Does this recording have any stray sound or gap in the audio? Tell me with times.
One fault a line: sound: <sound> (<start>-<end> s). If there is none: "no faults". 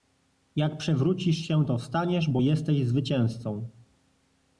no faults